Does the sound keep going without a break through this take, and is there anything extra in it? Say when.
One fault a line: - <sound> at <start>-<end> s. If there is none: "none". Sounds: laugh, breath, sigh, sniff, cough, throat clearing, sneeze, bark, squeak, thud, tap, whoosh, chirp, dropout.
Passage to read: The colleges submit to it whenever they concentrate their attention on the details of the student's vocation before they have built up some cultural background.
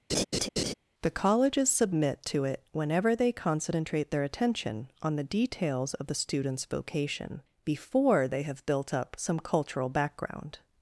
- laugh at 0.1-0.7 s